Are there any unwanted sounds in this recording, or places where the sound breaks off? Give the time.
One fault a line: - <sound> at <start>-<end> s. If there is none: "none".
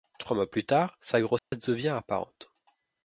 - dropout at 1.4-1.5 s